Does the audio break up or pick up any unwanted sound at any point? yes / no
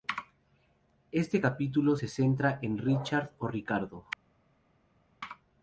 no